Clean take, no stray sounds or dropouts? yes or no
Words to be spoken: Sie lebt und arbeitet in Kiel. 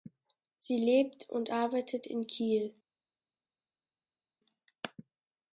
yes